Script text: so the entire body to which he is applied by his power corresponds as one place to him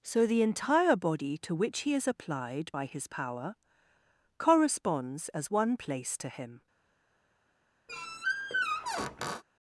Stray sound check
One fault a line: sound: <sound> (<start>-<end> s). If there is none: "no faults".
sound: squeak (7.9-9.4 s)